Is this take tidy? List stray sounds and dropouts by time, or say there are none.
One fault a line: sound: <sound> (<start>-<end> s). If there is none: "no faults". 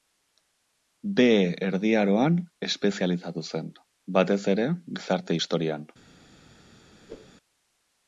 sound: whoosh (7.1-7.4 s)